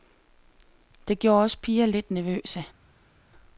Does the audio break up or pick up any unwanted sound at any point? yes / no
no